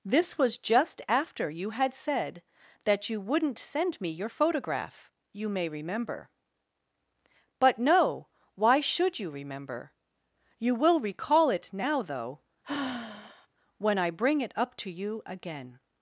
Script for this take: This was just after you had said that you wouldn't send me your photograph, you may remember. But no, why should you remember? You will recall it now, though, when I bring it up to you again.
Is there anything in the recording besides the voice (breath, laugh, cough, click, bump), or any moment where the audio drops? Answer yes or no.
yes